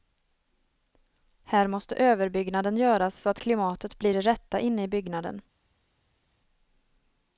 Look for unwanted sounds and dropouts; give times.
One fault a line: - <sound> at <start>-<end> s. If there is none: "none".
none